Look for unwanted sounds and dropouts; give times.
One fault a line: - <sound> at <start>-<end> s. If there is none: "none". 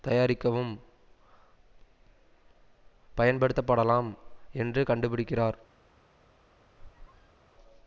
- squeak at 6.8-7.4 s